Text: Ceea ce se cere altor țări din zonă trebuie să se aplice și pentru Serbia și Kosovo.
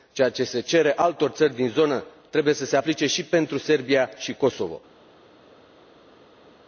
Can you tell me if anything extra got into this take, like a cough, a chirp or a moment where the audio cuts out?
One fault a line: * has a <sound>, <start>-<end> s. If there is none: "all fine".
all fine